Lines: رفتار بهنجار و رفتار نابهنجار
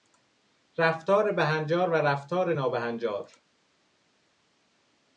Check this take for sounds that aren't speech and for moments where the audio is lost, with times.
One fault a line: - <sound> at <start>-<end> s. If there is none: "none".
none